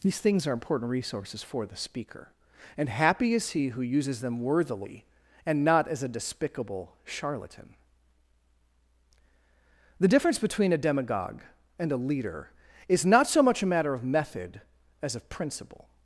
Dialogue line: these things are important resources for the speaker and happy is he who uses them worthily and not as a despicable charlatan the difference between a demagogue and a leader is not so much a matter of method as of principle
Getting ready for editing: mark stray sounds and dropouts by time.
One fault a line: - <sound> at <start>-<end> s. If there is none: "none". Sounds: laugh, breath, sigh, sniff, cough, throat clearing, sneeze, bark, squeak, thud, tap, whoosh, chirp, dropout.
none